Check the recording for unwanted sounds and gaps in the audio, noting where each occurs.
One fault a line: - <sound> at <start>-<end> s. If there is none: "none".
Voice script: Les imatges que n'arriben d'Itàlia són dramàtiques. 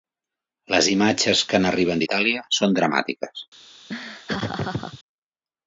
- laugh at 3.9-5.0 s